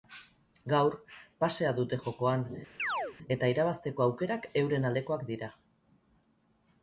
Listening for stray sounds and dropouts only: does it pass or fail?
fail